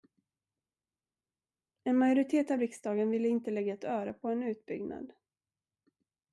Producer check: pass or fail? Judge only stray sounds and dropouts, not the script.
pass